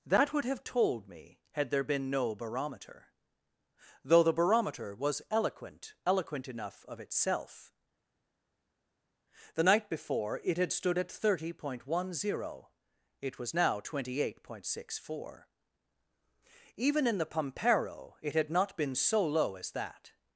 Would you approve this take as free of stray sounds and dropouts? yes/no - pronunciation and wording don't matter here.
yes